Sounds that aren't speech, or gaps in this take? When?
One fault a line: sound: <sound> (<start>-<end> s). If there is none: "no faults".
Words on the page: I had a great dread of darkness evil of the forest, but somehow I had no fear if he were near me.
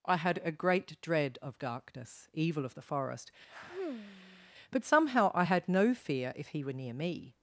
sound: sigh (3.5-4.5 s)